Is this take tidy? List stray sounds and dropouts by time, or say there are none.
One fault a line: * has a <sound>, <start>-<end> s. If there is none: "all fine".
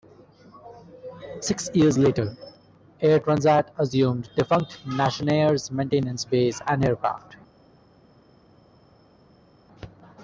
all fine